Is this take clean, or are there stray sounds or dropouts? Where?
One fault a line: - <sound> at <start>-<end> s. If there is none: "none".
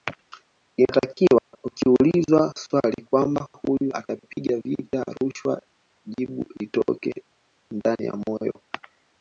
- dropout at 1.4-1.5 s